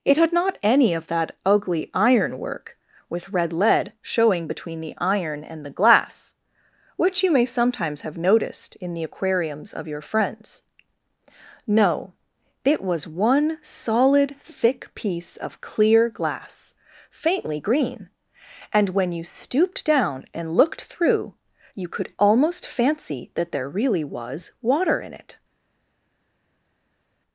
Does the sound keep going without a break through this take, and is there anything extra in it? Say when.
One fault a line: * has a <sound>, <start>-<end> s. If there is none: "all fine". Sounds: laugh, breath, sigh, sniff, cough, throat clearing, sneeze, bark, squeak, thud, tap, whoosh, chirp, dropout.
all fine